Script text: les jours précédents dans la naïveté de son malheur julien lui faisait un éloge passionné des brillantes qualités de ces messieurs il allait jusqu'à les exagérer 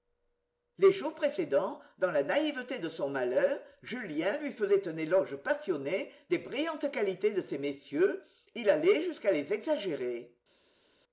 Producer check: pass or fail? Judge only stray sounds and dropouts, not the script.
pass